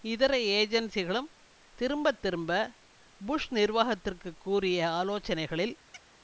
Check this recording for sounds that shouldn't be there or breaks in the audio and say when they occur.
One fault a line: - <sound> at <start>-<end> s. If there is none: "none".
- chirp at 5.9-6.0 s